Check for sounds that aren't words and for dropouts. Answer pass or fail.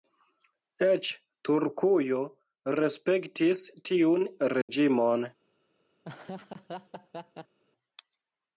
fail